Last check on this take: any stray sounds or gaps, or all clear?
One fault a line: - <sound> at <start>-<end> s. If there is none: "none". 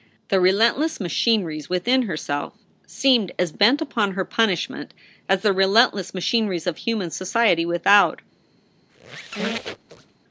- squeak at 8.9-10.2 s